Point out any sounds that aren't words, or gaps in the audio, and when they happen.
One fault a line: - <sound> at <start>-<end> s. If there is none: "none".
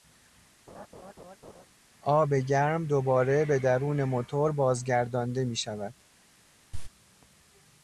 - laugh at 0.7-1.7 s
- cough at 6.7-6.9 s